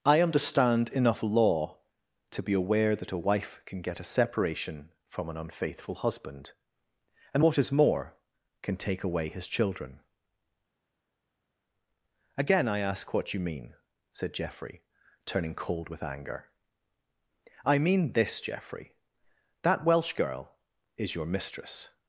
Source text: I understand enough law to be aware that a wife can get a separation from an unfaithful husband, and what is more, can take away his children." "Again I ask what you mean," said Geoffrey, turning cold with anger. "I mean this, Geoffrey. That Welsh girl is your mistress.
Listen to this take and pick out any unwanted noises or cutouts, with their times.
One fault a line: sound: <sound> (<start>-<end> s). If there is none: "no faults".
no faults